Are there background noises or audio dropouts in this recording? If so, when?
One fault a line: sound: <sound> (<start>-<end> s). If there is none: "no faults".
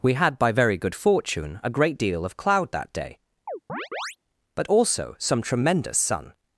sound: chirp (3.5-4.2 s)